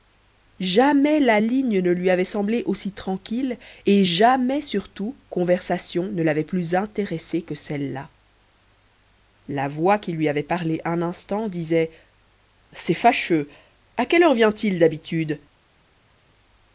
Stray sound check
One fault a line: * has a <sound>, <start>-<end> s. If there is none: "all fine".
all fine